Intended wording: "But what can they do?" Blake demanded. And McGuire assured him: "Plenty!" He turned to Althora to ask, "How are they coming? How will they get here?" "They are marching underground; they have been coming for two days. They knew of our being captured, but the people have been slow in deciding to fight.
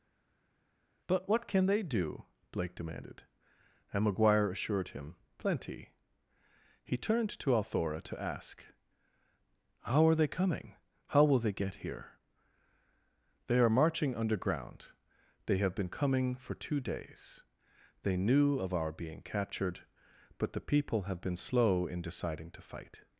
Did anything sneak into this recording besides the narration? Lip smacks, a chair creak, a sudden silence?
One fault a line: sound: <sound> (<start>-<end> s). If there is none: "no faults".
no faults